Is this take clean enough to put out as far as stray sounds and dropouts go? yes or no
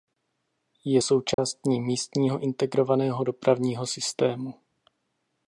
no